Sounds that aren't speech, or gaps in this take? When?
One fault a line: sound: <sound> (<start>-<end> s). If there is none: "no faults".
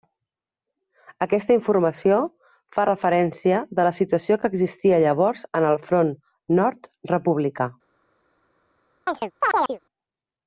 sound: chirp (9.1-9.8 s)